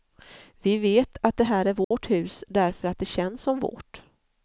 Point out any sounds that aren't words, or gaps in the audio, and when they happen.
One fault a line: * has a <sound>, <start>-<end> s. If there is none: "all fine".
* has a dropout, 1.8-1.9 s